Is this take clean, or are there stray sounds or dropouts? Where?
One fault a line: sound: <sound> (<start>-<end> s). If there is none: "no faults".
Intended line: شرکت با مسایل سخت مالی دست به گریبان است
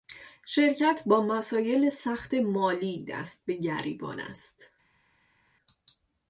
no faults